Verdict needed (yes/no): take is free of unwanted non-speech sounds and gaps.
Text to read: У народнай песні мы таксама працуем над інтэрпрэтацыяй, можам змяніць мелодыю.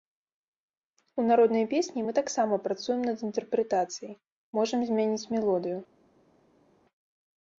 yes